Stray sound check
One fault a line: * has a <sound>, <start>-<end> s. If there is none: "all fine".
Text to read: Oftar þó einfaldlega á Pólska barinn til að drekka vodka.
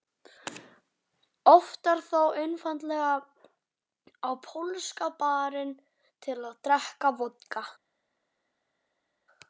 all fine